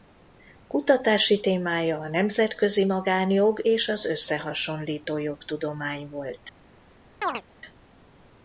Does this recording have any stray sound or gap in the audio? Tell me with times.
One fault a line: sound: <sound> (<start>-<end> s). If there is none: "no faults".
sound: chirp (7.2-7.4 s)